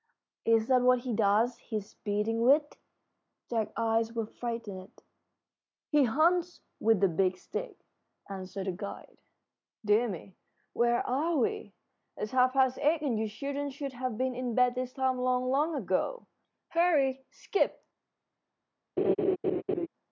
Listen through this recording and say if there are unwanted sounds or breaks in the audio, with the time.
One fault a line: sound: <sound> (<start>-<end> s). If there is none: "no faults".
sound: laugh (19.0-19.9 s)